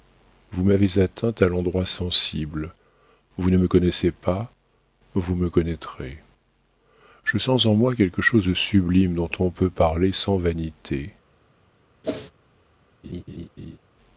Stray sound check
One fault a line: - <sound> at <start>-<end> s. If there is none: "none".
- whoosh at 12.0-12.3 s
- laugh at 13.0-13.8 s